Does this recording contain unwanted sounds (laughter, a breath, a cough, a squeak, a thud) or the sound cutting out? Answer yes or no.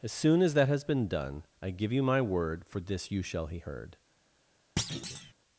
yes